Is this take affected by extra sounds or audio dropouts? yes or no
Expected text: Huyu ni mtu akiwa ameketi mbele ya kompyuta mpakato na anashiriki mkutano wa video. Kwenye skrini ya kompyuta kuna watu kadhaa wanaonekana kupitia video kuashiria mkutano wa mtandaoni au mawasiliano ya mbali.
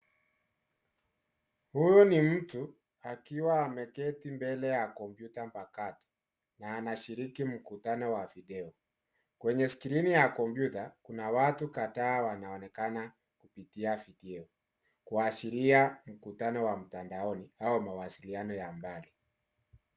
no